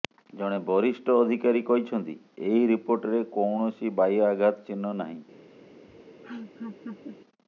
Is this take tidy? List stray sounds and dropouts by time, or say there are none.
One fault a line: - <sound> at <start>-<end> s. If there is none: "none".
- laugh at 5.9-7.2 s